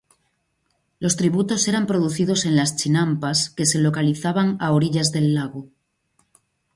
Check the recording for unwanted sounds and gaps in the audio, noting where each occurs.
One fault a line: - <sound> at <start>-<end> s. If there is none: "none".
none